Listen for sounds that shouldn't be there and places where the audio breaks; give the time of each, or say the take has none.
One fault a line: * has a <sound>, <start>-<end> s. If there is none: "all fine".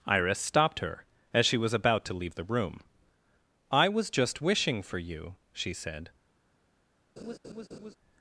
* has a laugh, 7.2-8.0 s